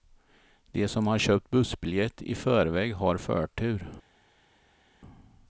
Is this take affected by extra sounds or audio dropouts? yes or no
no